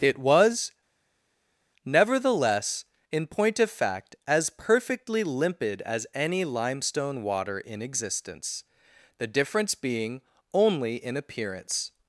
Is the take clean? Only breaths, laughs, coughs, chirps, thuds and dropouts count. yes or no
yes